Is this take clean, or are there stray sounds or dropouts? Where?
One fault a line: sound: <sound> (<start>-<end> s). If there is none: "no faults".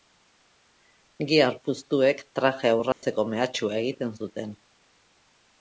sound: dropout (2.9-3.0 s)